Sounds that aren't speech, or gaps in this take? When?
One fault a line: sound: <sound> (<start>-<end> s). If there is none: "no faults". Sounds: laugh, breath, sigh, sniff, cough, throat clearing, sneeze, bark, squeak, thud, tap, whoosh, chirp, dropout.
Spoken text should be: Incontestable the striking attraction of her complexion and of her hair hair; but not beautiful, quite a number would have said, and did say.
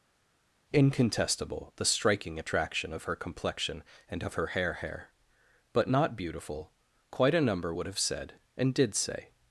no faults